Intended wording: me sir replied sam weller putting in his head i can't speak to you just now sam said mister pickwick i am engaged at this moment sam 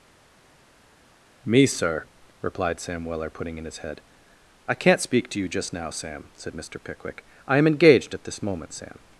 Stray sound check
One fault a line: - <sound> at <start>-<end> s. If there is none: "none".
none